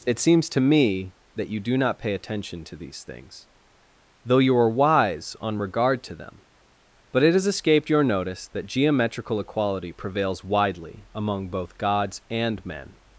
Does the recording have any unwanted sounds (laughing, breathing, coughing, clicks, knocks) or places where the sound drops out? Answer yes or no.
no